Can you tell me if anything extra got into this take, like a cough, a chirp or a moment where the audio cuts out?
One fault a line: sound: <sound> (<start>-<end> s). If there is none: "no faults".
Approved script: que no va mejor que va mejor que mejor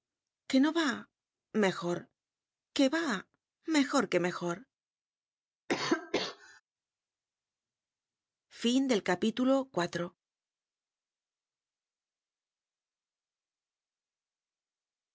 sound: cough (5.7-6.6 s)